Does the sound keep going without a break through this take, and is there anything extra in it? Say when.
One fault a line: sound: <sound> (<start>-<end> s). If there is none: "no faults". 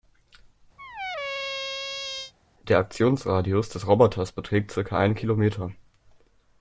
sound: squeak (0.8-2.3 s)